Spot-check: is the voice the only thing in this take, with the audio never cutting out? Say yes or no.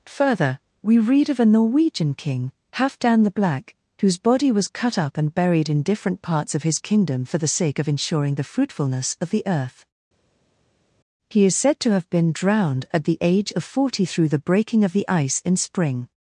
yes